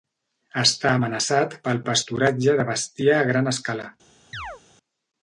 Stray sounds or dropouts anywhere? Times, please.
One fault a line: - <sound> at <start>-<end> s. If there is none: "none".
- chirp at 4.3-4.6 s